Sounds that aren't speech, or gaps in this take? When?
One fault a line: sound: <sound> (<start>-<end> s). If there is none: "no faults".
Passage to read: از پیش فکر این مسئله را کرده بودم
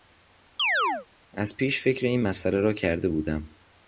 sound: chirp (0.6-1.1 s)